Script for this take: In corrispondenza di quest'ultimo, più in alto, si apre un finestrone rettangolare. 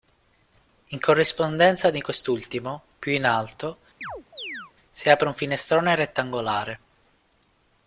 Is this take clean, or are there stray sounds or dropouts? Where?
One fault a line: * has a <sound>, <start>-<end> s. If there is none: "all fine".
* has a chirp, 4.0-4.7 s